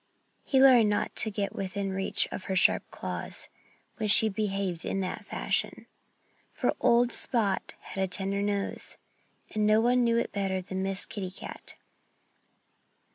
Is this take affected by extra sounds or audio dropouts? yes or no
no